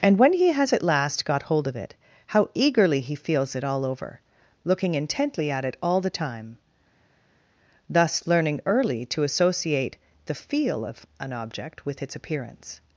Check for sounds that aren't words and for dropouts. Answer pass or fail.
pass